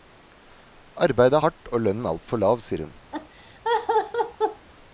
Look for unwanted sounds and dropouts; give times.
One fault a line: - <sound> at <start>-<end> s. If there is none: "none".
- laugh at 3.1-4.7 s